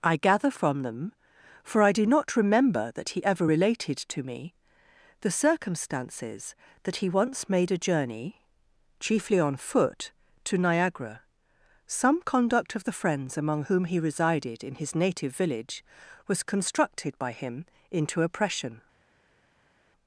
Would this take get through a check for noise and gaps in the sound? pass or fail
pass